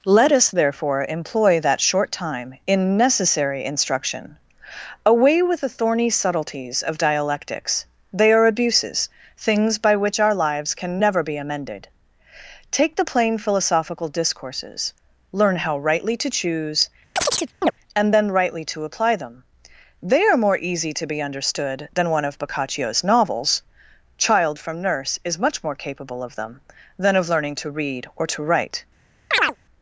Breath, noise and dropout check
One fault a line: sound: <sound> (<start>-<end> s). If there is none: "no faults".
sound: chirp (17.2-17.7 s)
sound: chirp (29.3-29.6 s)